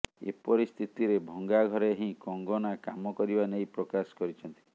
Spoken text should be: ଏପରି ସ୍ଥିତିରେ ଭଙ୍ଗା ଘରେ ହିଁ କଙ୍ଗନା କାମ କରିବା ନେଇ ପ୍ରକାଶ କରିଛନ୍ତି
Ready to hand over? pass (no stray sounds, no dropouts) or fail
pass